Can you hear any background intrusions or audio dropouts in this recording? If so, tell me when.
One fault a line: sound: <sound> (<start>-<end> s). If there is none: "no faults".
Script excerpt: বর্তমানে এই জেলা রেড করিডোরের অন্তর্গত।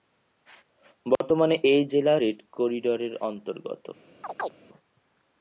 sound: dropout (1.2-1.2 s)
sound: chirp (4.2-4.5 s)